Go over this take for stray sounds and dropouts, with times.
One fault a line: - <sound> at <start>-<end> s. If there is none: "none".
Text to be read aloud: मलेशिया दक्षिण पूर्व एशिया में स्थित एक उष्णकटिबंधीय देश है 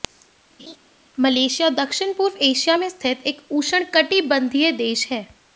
- laugh at 0.6-0.8 s